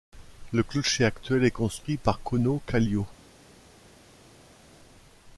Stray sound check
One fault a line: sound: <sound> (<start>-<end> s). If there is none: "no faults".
no faults